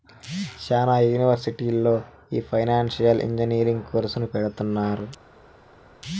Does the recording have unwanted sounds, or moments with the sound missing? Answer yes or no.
no